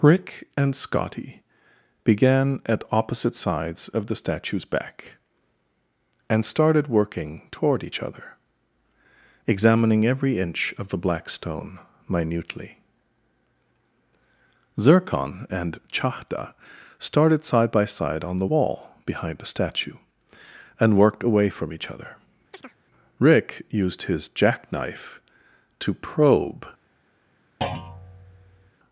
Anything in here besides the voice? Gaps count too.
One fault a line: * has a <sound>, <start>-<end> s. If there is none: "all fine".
* has a chirp, 22.5-22.8 s
* has a thud, 27.6-28.7 s